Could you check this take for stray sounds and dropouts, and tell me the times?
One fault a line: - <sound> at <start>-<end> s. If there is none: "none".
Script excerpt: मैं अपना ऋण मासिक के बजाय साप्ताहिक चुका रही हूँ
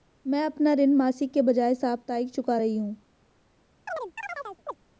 - chirp at 3.9-4.7 s